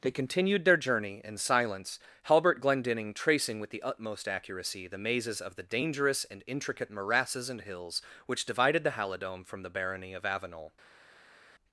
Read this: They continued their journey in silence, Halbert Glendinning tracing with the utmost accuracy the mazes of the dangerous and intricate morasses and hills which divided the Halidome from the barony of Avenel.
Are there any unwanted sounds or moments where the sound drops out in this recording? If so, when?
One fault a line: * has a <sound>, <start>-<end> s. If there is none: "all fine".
all fine